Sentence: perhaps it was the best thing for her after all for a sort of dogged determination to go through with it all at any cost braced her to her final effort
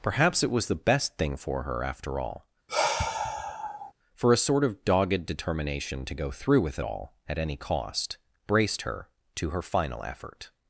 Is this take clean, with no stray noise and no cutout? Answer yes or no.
no